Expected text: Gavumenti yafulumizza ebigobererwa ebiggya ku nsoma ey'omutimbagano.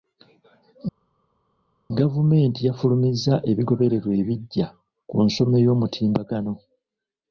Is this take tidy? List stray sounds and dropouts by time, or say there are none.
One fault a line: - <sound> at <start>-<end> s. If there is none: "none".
none